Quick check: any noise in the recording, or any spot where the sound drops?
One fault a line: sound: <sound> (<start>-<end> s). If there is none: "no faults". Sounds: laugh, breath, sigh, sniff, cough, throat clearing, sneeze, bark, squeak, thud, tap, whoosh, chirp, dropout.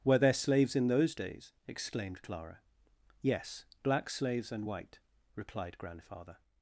no faults